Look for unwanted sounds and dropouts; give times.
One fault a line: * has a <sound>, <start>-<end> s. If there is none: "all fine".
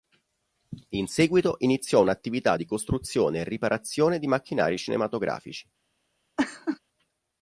* has a laugh, 6.4-6.8 s